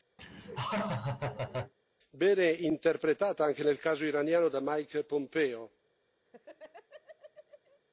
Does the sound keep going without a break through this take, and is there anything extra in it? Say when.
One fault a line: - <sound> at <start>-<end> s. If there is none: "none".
- laugh at 0.2-1.7 s
- laugh at 6.3-7.8 s